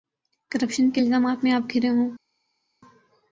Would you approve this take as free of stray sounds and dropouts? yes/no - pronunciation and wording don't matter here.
yes